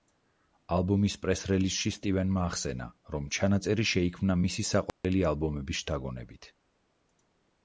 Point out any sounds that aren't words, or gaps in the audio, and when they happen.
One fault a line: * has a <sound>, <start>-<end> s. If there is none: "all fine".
* has a dropout, 4.9-5.0 s